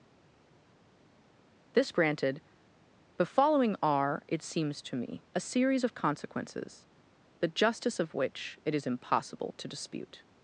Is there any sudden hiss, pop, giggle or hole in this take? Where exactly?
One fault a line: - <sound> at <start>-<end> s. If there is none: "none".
none